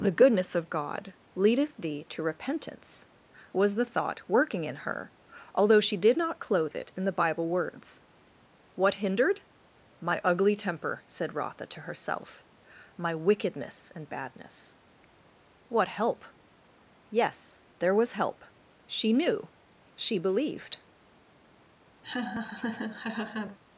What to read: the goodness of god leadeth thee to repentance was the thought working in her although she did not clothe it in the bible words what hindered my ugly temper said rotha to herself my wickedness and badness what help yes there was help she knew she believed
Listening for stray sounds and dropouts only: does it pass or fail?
fail